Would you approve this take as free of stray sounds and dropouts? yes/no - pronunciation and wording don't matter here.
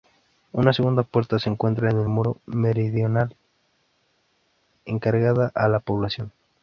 yes